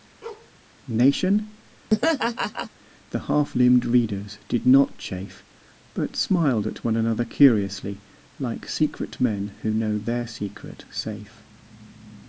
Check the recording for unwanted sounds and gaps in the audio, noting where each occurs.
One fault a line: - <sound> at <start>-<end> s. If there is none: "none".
- bark at 0.2-0.5 s
- laugh at 1.9-2.7 s